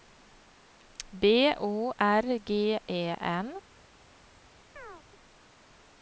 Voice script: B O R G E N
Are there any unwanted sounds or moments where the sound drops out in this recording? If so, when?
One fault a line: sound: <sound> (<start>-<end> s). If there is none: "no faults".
sound: chirp (4.8-5.0 s)